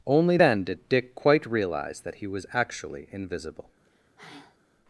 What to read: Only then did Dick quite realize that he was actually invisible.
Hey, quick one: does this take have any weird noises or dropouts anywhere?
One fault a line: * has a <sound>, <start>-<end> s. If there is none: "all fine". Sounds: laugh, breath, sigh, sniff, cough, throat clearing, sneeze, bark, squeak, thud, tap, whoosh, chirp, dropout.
* has a sigh, 3.8-4.6 s